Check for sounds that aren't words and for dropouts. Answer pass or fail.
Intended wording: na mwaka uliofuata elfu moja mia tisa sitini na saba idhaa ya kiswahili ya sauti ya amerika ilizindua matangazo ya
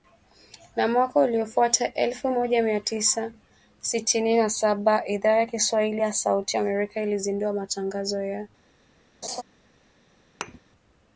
fail